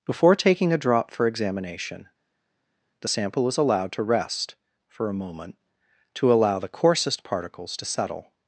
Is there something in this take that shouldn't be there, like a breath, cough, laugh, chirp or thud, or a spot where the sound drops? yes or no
no